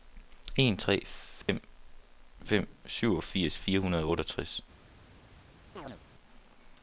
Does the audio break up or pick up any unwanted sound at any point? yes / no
yes